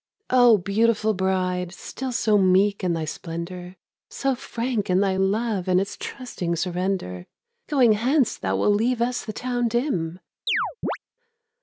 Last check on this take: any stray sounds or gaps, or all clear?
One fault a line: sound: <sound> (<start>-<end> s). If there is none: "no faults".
sound: chirp (10.5-11.0 s)